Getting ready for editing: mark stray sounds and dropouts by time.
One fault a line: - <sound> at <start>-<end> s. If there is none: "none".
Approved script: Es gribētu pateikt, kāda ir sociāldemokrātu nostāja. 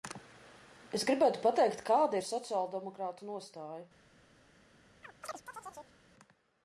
- chirp at 5.0-6.0 s